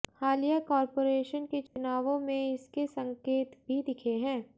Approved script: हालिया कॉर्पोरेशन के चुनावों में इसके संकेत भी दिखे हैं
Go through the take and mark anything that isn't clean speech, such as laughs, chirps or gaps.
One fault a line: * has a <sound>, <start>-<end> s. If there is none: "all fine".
* has a dropout, 1.7-1.8 s